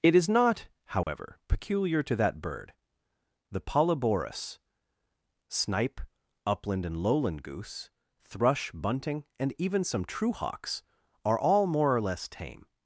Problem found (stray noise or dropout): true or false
true